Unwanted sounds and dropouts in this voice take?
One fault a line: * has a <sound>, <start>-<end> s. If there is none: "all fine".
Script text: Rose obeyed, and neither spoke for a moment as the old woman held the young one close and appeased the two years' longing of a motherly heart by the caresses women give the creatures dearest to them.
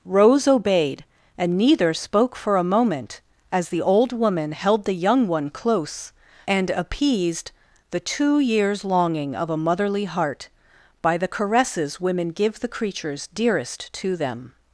all fine